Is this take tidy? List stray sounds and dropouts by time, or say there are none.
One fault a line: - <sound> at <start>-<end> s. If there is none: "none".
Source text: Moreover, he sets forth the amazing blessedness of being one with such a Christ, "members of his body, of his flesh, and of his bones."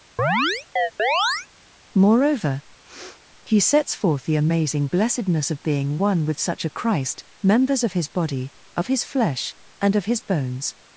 - chirp at 0.2-1.5 s
- sniff at 2.8-3.2 s